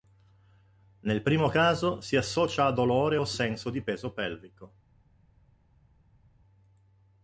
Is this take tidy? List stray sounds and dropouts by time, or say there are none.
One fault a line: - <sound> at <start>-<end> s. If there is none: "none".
none